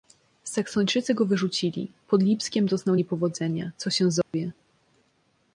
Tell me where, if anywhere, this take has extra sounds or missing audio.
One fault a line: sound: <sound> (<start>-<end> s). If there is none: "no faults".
sound: dropout (4.2-4.3 s)